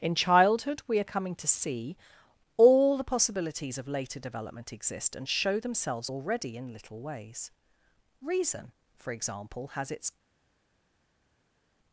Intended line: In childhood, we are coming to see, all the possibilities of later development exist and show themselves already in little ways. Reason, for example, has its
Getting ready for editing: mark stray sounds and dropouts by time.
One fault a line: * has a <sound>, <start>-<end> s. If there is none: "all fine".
all fine